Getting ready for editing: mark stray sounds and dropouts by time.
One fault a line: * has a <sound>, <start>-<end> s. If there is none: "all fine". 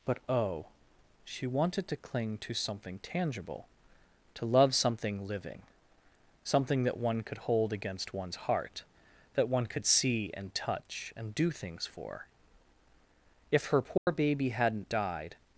* has a dropout, 14.0-14.1 s